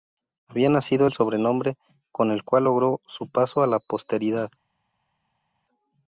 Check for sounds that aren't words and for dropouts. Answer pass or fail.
pass